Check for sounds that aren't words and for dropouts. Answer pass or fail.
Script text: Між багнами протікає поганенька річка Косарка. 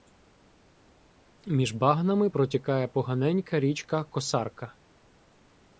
pass